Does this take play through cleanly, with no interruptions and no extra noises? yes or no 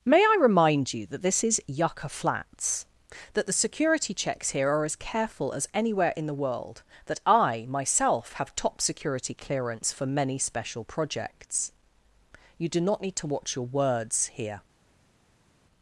yes